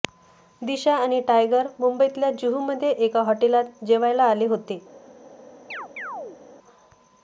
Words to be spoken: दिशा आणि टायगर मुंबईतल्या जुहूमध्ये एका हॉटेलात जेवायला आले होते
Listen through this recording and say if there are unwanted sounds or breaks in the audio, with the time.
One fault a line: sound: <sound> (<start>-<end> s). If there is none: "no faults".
sound: chirp (5.7-6.4 s)